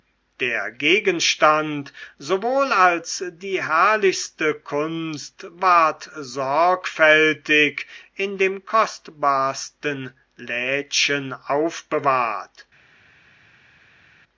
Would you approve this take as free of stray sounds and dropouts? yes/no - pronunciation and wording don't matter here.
yes